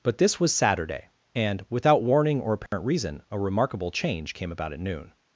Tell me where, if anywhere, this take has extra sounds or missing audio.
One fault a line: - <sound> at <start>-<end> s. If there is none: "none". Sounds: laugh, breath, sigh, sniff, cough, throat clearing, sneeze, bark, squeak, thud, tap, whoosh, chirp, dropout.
- dropout at 2.7-2.7 s